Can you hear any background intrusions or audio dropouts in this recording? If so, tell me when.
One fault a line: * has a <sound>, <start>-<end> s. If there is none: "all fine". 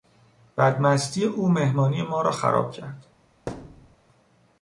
* has a thud, 3.5-4.0 s